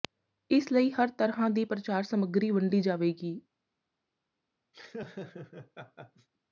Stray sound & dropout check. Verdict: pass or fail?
fail